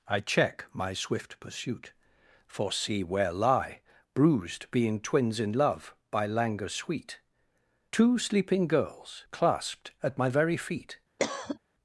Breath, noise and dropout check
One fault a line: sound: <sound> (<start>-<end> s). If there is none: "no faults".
sound: cough (11.2-11.6 s)